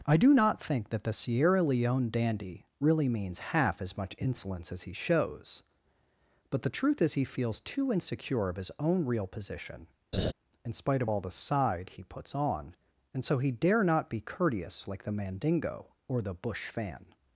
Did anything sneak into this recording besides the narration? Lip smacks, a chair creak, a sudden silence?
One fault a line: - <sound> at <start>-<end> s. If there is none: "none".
- laugh at 10.1-10.3 s